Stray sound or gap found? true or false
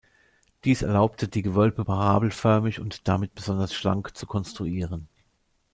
false